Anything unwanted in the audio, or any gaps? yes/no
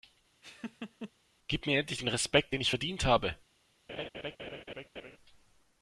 yes